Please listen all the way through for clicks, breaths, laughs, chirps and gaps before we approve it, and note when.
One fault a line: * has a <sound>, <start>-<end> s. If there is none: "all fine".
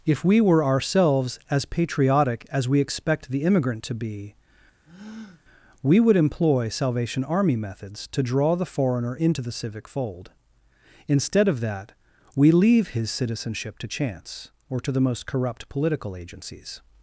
* has a breath, 4.8-5.4 s